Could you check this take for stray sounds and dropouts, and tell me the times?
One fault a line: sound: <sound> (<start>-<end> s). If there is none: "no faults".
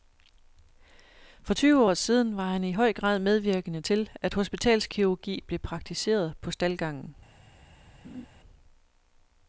sound: laugh (8.0-8.3 s)